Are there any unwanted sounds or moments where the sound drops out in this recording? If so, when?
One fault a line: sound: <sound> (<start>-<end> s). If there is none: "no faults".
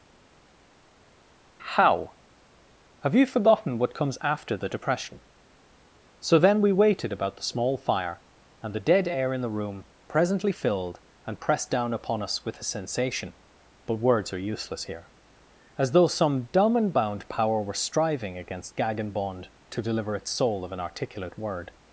no faults